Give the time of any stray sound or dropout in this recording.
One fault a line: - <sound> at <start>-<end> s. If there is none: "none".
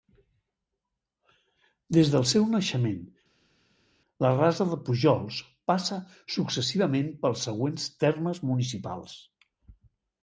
none